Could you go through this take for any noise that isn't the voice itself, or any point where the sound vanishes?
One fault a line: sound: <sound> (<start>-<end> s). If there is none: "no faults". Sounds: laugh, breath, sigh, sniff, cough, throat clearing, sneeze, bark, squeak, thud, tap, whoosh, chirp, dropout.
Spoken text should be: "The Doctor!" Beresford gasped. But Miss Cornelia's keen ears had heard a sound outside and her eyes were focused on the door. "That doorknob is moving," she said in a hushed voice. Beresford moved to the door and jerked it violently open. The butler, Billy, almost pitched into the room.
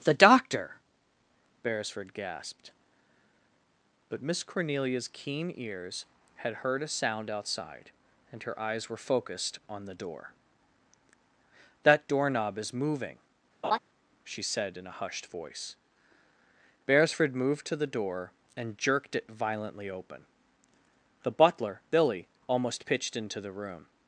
sound: laugh (13.6-13.8 s)